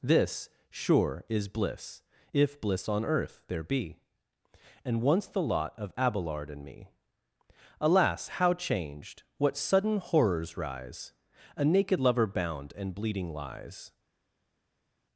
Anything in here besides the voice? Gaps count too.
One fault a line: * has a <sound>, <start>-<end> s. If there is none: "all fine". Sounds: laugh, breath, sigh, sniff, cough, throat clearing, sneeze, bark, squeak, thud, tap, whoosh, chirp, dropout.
all fine